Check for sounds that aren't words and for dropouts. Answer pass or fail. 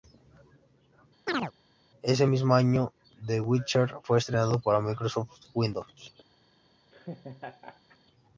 fail